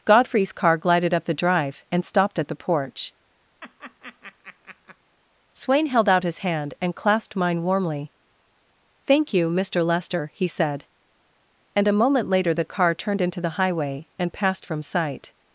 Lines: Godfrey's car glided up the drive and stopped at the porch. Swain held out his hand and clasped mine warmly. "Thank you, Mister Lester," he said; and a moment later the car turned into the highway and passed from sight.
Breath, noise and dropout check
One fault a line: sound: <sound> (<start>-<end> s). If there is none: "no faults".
sound: laugh (3.6-5.0 s)